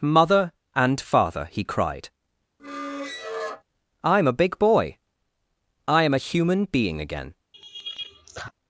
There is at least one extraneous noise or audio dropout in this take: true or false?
true